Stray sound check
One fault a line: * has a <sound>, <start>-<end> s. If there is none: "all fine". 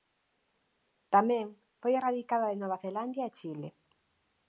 all fine